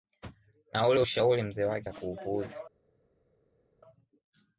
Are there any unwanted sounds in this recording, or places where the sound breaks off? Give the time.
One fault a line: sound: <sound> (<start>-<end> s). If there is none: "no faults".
no faults